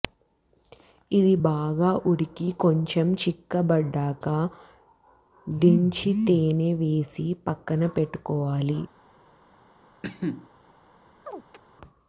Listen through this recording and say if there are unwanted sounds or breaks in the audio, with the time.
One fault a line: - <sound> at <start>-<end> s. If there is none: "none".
- cough at 10.0-10.5 s
- chirp at 11.3-11.6 s